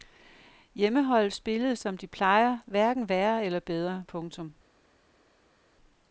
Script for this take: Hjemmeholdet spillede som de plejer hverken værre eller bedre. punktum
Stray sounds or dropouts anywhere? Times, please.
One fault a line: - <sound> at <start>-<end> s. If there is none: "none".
none